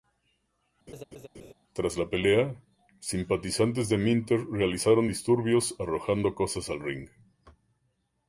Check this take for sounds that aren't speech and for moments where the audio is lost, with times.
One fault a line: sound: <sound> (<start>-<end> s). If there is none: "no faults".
sound: laugh (0.9-1.5 s)